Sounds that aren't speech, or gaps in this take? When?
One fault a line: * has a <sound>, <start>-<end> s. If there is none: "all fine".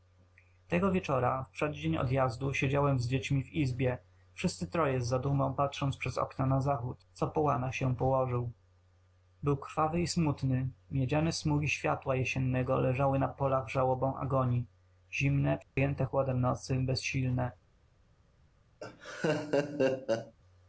* has a dropout, 15.6-15.8 s
* has a laugh, 18.8-20.3 s